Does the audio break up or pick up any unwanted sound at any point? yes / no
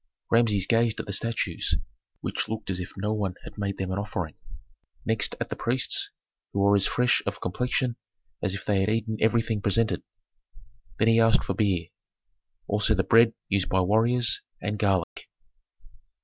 yes